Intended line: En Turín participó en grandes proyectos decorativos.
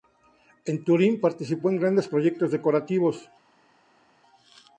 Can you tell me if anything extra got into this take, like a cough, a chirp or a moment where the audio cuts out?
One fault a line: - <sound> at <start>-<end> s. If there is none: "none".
none